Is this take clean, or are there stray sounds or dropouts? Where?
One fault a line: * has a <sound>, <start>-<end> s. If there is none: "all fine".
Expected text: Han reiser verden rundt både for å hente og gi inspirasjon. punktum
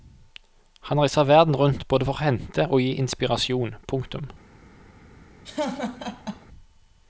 * has a laugh, 5.4-6.5 s